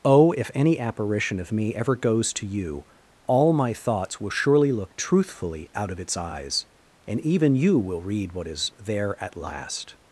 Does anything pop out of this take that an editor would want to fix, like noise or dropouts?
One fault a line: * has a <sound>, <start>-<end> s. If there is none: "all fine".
all fine